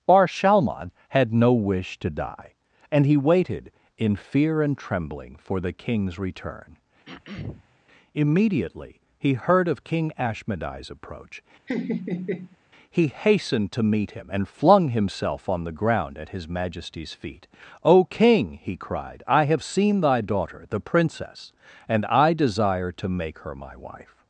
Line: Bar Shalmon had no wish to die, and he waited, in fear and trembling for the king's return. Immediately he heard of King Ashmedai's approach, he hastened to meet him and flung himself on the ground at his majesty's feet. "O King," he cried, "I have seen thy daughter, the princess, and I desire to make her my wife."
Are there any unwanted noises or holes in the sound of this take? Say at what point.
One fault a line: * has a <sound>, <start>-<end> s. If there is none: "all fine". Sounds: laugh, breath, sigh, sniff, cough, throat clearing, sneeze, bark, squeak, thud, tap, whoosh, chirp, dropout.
* has a throat clearing, 7.1-7.8 s
* has a laugh, 11.7-12.6 s